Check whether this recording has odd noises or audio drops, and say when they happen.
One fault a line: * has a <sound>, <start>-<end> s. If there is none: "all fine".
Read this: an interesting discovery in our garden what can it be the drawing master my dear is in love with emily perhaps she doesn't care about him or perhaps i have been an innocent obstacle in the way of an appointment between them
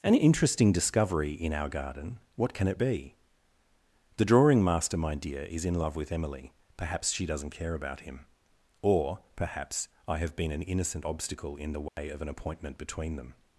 * has a dropout, 11.9-12.0 s